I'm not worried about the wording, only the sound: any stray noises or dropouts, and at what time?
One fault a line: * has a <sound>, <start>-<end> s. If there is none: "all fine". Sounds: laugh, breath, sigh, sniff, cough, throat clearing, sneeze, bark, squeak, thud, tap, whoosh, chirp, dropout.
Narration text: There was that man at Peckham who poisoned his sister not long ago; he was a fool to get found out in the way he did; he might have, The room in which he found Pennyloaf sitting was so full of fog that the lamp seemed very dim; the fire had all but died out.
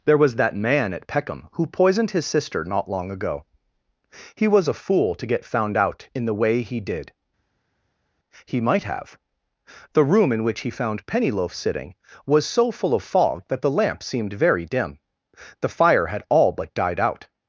all fine